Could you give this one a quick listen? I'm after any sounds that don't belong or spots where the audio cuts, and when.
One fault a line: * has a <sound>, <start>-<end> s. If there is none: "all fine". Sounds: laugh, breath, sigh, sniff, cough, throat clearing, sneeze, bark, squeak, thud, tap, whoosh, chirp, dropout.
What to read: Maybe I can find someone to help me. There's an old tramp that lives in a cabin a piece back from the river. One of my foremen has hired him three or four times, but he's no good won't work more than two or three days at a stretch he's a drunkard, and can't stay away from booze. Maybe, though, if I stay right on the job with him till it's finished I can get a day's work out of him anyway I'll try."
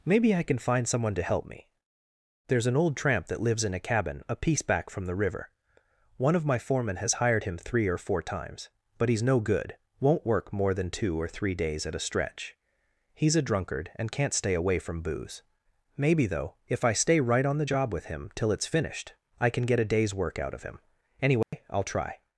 * has a dropout, 21.4-21.5 s